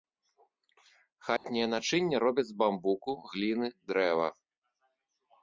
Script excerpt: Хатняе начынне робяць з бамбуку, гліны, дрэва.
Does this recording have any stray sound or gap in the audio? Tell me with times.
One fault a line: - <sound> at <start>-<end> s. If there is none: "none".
- dropout at 1.4-1.4 s